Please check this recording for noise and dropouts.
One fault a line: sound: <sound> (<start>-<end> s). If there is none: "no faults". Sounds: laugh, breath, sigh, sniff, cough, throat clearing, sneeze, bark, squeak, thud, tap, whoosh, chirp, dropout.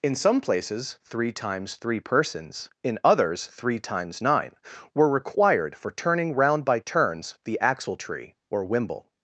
no faults